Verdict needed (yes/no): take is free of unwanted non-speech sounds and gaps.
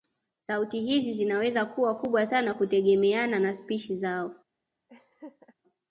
no